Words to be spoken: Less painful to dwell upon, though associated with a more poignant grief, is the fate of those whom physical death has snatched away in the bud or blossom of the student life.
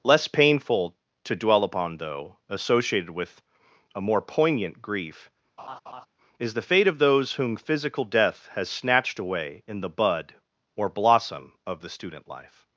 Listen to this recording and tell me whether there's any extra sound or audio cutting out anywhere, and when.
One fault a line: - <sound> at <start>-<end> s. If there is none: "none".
- laugh at 5.6-6.1 s